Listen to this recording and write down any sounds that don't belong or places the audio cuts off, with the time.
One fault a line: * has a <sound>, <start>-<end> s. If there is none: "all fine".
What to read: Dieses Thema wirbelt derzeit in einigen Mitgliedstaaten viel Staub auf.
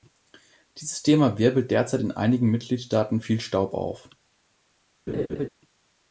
* has a laugh, 5.1-5.5 s